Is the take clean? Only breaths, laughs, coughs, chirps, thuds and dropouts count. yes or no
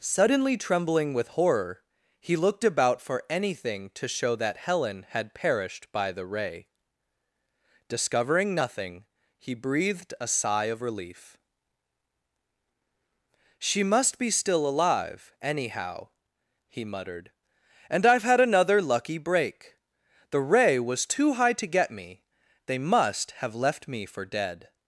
yes